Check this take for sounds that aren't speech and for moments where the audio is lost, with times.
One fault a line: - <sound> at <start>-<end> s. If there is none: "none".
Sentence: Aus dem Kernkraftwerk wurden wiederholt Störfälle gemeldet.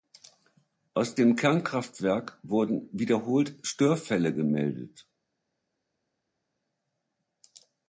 none